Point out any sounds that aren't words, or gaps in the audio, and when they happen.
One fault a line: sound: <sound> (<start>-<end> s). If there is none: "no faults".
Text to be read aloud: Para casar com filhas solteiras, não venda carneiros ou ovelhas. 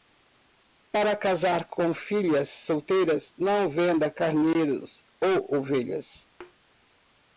sound: thud (6.4-6.5 s)